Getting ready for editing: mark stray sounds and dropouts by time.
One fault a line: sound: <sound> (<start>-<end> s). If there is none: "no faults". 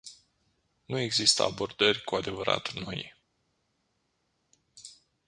no faults